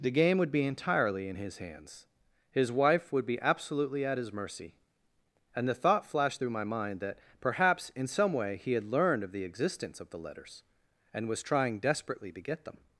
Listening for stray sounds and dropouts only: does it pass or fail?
pass